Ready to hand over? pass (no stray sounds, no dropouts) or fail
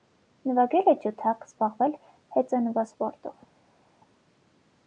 pass